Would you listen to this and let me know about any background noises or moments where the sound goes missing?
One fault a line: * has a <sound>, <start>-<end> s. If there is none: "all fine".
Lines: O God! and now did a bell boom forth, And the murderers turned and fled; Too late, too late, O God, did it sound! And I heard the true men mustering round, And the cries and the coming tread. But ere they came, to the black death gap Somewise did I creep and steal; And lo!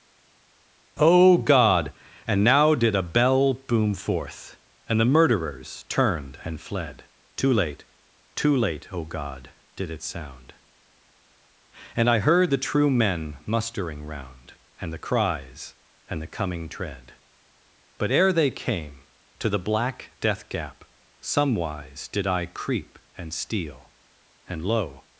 all fine